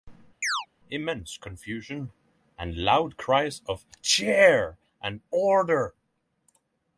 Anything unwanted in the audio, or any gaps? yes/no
yes